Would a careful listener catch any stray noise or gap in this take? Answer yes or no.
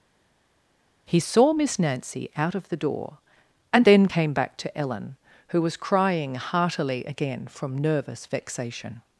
no